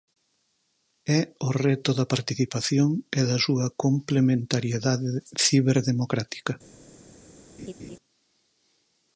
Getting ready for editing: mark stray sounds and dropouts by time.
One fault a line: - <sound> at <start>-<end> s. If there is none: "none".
- laugh at 7.6-8.0 s